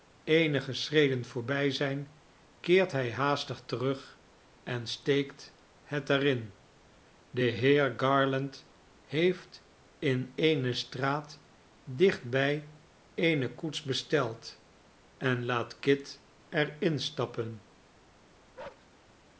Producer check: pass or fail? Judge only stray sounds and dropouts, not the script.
fail